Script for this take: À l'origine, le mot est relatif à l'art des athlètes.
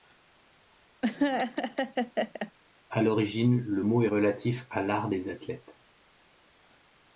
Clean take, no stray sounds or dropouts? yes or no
no